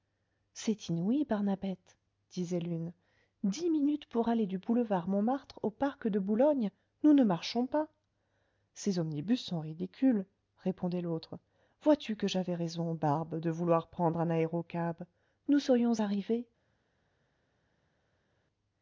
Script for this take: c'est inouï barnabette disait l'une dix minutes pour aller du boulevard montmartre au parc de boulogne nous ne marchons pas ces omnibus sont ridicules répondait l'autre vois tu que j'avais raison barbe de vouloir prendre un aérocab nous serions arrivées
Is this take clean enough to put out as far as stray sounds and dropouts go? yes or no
yes